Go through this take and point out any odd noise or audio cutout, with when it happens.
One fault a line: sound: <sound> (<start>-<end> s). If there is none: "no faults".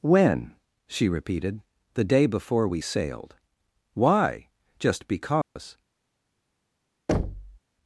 sound: dropout (5.4-5.6 s)
sound: thud (7.1-7.6 s)